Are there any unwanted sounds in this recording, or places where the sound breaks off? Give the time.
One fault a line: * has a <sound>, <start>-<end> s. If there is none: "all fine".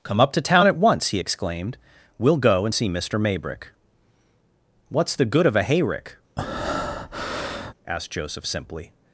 * has a breath, 6.4-7.7 s